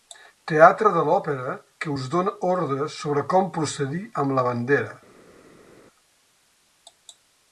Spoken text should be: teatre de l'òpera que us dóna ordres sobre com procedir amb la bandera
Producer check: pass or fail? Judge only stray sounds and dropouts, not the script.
pass